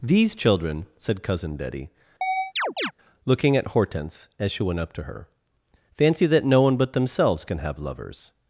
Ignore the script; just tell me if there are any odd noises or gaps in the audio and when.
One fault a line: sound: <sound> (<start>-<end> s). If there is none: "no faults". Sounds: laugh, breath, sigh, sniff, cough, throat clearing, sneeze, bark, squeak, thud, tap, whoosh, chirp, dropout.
sound: chirp (2.2-2.9 s)